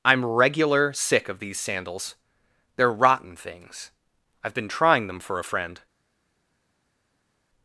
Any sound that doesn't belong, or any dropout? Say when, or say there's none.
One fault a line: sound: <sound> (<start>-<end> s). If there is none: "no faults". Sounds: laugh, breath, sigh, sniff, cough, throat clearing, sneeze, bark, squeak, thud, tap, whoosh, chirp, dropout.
no faults